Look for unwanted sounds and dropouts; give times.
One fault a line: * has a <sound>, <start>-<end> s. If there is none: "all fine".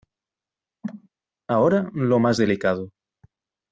* has a cough, 0.8-1.1 s